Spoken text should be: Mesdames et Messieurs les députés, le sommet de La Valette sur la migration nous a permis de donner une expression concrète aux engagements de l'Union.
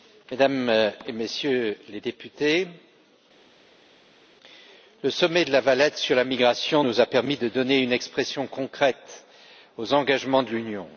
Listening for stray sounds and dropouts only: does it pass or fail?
pass